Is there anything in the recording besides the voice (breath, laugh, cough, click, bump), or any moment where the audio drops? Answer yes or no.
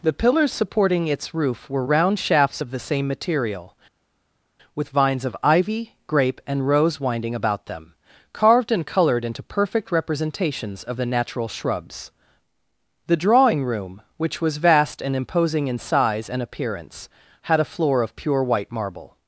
no